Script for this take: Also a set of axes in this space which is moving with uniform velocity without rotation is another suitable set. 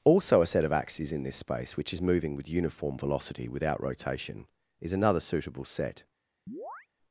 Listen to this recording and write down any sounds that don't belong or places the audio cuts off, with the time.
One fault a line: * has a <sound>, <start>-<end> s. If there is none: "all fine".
* has a chirp, 6.5-6.9 s